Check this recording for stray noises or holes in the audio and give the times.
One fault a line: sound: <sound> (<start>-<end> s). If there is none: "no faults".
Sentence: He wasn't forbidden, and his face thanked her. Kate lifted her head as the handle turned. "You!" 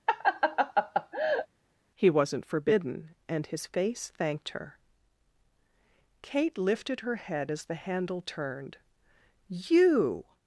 sound: laugh (0.1-1.5 s)